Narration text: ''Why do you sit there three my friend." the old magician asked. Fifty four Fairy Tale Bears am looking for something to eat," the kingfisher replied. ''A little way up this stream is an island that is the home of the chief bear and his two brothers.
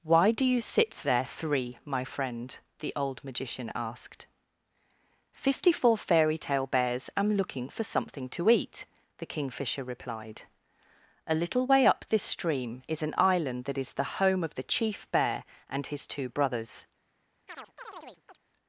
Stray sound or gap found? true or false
true